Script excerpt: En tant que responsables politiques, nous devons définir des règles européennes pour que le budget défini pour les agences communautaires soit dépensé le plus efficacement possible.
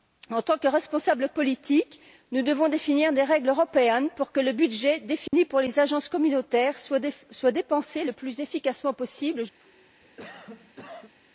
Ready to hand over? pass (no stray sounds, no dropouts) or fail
fail